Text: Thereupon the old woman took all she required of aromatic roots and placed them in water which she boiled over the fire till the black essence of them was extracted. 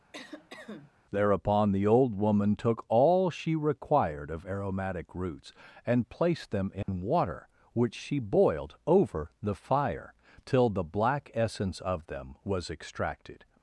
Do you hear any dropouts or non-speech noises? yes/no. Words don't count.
yes